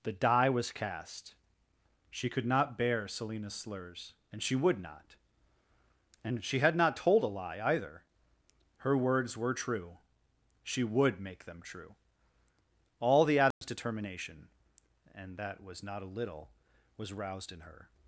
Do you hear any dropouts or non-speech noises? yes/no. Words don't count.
yes